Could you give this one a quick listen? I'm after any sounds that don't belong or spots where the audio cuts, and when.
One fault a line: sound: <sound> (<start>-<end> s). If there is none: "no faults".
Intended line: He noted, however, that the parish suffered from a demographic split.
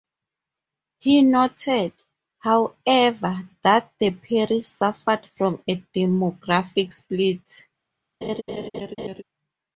sound: laugh (8.2-9.2 s)